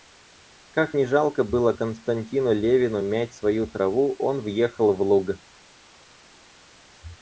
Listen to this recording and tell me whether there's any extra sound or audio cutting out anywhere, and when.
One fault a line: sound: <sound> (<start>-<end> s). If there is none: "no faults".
no faults